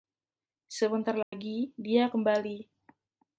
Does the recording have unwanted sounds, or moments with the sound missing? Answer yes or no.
yes